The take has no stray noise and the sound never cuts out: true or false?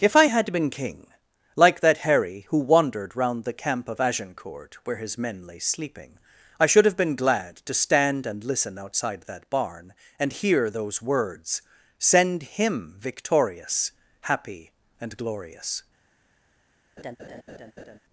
false